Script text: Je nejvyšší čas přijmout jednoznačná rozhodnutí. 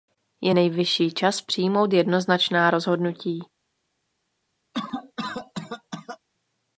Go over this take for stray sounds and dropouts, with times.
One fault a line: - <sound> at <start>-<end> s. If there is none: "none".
- cough at 4.7-6.2 s